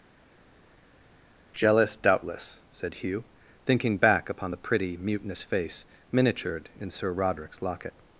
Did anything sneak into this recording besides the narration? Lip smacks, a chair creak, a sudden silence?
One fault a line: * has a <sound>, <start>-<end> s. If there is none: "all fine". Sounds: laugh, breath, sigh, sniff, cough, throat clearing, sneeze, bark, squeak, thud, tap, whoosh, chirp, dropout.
all fine